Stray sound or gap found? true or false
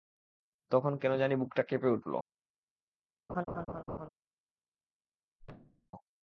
true